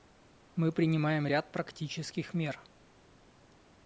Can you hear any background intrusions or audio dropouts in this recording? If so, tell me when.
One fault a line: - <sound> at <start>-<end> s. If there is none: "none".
none